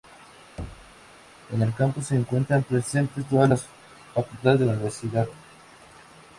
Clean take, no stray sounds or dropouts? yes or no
no